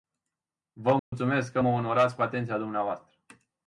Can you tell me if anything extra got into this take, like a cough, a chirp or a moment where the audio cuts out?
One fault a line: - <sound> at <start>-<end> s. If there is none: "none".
- dropout at 1.0-1.1 s